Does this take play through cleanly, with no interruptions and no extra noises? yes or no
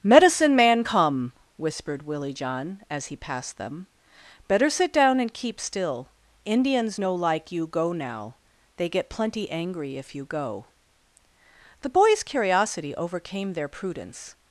yes